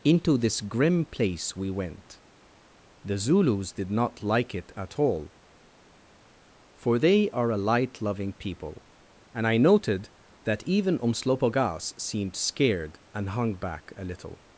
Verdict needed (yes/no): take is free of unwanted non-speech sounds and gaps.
yes